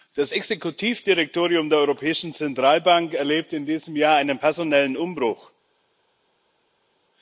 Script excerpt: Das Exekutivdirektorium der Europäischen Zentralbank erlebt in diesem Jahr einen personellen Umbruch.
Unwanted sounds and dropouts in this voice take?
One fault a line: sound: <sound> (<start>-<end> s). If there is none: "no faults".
no faults